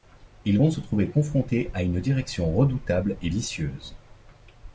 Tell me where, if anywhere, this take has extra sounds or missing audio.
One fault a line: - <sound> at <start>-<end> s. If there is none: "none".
none